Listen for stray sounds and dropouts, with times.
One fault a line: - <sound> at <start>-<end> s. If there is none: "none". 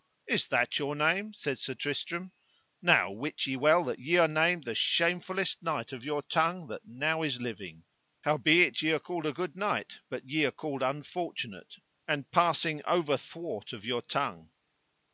none